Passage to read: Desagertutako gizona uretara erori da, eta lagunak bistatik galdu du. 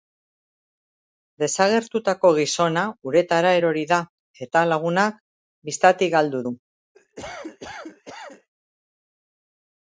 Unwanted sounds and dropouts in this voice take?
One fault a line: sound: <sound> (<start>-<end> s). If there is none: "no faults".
sound: cough (6.9-8.5 s)